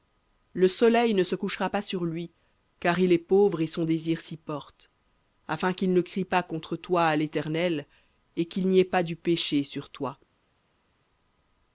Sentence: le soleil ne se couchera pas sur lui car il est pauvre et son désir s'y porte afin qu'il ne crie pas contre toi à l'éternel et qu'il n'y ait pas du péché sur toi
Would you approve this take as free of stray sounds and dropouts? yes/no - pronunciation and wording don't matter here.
yes